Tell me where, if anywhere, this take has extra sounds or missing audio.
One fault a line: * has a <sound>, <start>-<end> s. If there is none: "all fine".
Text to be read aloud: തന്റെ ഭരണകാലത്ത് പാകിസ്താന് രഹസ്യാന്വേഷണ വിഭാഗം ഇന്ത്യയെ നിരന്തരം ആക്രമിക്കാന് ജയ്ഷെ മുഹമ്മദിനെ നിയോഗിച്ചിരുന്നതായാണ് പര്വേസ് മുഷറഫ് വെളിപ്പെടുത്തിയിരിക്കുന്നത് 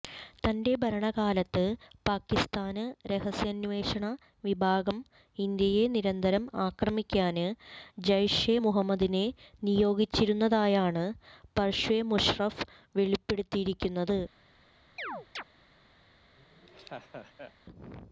* has a chirp, 15.0-15.4 s
* has a laugh, 16.4-17.5 s